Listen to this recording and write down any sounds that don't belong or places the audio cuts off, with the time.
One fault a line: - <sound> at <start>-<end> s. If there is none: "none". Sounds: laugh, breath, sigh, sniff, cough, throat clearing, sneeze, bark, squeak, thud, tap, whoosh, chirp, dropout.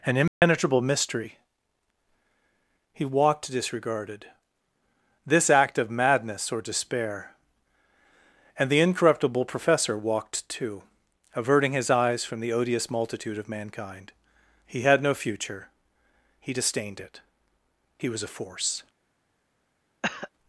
- dropout at 0.3-0.4 s
- cough at 20.0-20.3 s